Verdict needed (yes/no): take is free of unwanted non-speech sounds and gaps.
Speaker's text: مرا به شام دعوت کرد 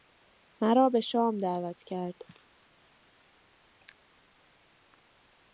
yes